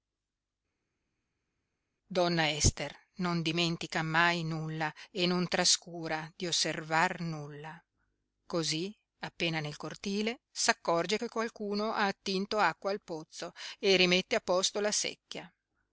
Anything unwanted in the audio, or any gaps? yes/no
no